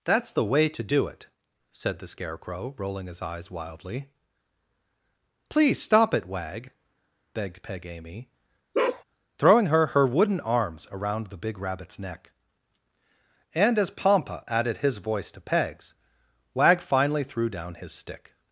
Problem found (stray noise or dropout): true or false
true